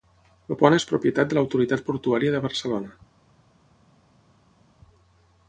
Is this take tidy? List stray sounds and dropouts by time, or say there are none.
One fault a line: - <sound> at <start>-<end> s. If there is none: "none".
none